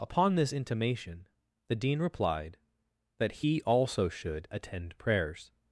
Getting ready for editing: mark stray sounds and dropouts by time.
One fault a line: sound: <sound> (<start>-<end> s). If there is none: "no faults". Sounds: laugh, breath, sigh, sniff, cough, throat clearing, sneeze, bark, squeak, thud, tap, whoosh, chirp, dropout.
no faults